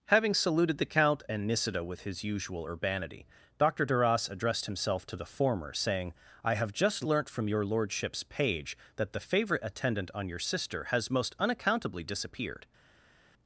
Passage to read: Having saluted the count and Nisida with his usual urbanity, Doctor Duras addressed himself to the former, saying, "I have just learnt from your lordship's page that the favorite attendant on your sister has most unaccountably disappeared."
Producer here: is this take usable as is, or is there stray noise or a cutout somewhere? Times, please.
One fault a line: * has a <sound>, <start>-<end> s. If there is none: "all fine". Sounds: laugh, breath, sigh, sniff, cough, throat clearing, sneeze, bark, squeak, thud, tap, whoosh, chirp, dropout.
all fine